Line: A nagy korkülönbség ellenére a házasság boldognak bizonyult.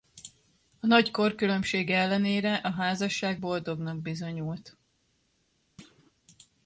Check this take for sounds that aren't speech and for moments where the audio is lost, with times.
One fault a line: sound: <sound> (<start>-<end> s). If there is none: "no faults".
sound: thud (5.8-6.1 s)